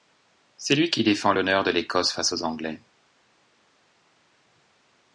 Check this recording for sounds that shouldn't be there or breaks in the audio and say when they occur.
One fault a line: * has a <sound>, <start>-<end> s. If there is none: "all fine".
all fine